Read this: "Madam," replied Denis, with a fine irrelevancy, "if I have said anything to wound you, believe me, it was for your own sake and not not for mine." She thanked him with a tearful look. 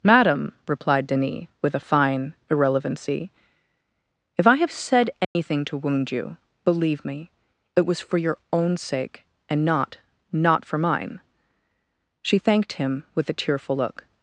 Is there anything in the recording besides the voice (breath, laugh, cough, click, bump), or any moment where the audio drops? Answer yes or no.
yes